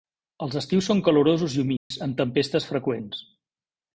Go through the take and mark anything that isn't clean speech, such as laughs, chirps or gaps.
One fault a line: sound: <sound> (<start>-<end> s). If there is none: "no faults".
sound: dropout (1.8-1.9 s)